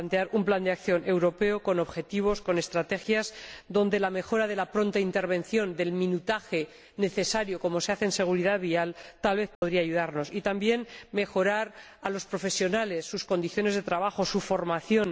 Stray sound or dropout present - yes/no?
yes